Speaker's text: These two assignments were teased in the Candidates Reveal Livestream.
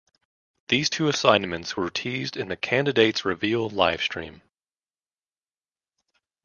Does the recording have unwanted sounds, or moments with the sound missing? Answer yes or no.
no